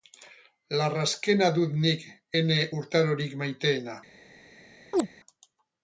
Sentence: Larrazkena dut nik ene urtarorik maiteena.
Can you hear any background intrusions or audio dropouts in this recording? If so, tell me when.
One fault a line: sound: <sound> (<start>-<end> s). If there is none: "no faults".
sound: chirp (4.9-5.1 s)